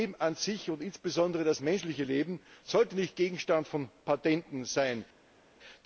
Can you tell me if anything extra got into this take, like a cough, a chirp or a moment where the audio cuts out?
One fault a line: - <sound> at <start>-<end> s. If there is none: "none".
none